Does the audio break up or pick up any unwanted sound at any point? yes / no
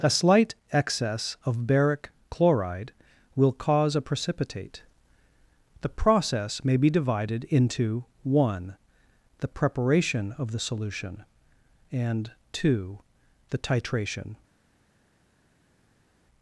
no